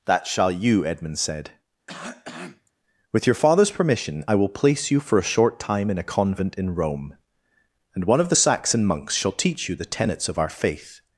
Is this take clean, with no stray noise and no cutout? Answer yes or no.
no